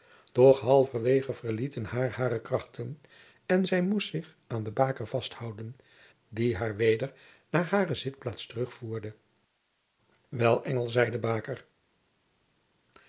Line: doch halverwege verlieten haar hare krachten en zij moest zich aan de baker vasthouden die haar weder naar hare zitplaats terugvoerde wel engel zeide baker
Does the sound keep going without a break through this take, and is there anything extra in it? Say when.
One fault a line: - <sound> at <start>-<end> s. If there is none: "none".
none